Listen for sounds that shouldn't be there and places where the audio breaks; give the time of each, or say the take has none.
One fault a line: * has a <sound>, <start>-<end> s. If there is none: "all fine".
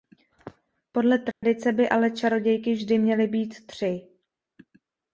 * has a dropout, 1.3-1.4 s